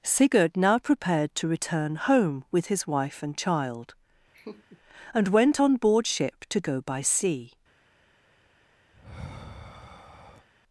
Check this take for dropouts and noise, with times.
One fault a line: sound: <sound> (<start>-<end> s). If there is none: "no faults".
sound: laugh (4.3-4.8 s)
sound: sigh (8.9-10.5 s)